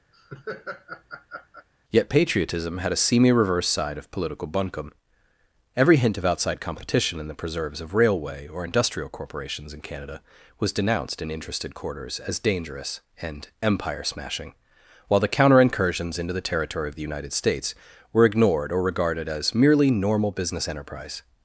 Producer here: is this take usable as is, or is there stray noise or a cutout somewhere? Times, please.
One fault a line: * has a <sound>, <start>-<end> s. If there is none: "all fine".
* has a laugh, 0.1-1.7 s